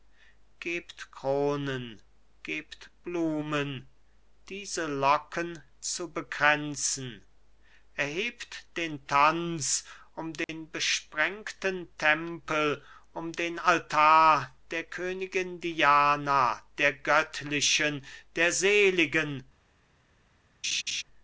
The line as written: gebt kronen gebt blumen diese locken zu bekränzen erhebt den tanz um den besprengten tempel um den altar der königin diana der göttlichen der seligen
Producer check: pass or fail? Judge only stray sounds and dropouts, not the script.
fail